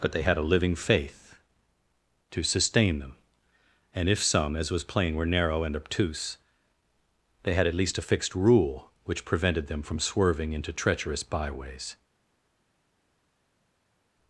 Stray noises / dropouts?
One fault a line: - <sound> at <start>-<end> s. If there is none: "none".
none